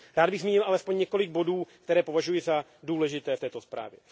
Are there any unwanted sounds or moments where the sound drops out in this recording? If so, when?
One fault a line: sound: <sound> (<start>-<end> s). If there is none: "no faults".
no faults